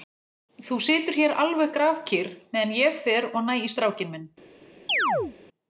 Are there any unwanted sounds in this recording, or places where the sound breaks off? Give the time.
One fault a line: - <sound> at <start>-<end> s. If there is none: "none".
- chirp at 4.9-5.4 s